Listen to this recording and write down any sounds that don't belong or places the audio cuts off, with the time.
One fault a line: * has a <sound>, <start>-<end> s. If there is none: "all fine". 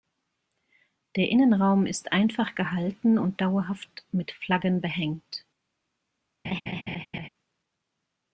* has a laugh, 6.4-7.3 s